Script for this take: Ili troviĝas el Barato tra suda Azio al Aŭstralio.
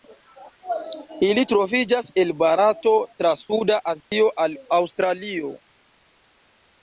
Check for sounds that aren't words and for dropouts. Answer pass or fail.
fail